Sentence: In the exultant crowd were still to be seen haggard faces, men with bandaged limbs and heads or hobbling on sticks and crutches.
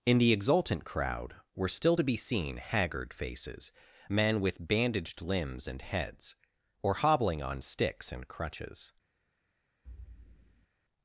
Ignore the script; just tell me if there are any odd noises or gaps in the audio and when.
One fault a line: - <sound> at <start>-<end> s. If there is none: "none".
- thud at 9.8-10.7 s